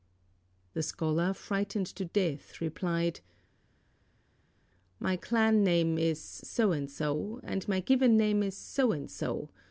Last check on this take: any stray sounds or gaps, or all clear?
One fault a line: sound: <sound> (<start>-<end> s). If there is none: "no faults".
no faults